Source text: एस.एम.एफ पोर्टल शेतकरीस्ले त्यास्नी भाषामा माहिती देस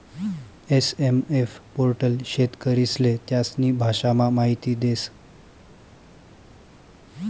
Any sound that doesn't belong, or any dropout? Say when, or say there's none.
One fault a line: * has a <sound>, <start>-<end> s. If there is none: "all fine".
all fine